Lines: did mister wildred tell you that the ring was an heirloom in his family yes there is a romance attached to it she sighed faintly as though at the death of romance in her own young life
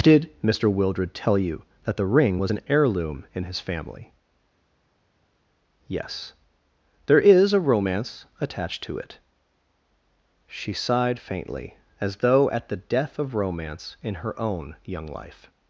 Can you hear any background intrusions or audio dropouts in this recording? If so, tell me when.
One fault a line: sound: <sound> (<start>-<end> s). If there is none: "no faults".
no faults